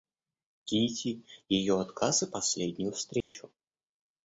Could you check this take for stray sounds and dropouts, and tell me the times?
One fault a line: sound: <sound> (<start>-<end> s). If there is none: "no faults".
sound: dropout (3.2-3.3 s)